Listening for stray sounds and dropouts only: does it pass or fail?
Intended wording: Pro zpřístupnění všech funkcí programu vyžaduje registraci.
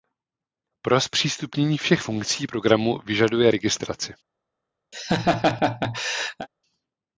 fail